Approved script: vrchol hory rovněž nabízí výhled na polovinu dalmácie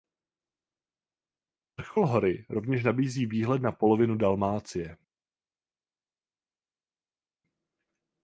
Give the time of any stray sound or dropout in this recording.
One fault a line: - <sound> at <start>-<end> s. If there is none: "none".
none